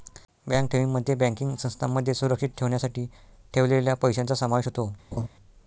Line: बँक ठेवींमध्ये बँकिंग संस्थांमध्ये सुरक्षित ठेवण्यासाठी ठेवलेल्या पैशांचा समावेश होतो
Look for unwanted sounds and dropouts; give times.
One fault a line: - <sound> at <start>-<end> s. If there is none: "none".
- laugh at 5.1-5.3 s